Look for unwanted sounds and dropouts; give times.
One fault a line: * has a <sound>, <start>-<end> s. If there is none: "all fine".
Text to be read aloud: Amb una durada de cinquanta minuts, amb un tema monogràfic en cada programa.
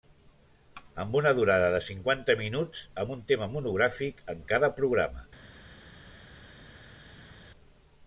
all fine